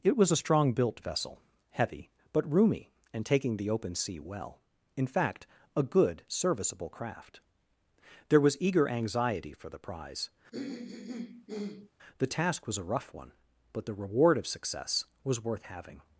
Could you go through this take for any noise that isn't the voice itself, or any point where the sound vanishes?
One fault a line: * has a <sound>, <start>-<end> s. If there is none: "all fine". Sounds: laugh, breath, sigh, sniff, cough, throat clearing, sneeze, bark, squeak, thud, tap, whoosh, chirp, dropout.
* has a throat clearing, 10.5-11.9 s